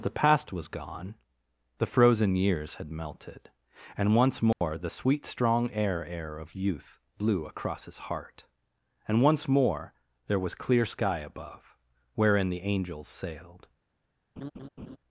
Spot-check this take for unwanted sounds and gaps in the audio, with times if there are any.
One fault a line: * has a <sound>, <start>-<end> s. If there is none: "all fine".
* has a dropout, 4.5-4.6 s
* has a laugh, 14.4-15.0 s